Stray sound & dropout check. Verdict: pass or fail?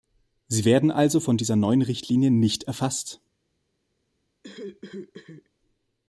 fail